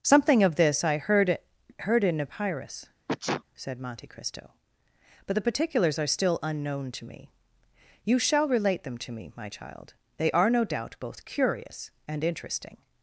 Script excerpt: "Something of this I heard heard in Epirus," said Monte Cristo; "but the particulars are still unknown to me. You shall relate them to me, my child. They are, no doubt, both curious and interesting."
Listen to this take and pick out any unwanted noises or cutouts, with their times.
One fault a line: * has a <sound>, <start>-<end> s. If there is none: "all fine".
* has a sneeze, 3.1-3.4 s